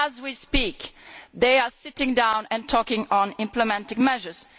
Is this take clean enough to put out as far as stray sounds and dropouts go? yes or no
yes